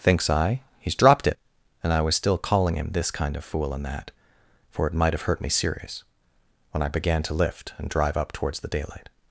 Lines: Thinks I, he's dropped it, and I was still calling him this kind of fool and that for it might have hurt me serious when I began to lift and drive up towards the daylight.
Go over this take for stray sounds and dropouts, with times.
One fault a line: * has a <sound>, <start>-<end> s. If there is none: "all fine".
all fine